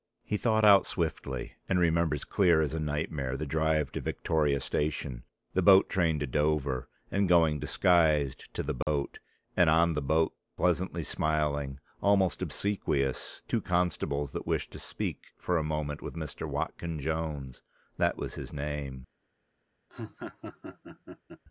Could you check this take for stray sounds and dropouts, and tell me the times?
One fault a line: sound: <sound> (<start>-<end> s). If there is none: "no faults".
sound: dropout (8.8-8.9 s)
sound: laugh (19.9-21.4 s)